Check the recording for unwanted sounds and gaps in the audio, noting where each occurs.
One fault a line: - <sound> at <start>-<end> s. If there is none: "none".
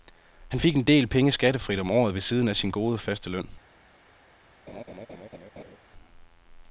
- laugh at 4.7-5.8 s